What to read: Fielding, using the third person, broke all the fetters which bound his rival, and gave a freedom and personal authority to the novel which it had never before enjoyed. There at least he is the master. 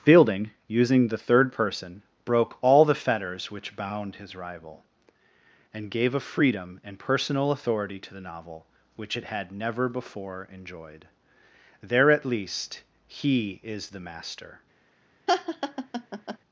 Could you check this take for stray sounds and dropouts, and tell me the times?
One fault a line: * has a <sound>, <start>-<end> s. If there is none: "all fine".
* has a laugh, 15.3-16.4 s